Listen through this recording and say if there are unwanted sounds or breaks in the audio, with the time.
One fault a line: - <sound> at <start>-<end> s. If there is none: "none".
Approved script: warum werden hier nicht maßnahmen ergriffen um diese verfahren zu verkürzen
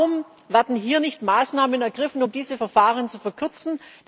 none